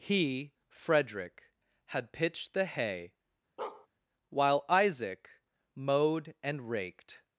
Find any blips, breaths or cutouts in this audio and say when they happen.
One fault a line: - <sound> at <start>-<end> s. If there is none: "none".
- bark at 3.6-3.9 s